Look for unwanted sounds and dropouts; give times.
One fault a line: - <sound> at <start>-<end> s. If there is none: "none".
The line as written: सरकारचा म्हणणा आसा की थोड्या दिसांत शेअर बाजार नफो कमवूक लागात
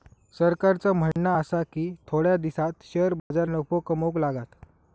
- dropout at 1.1-1.2 s
- dropout at 3.2-3.3 s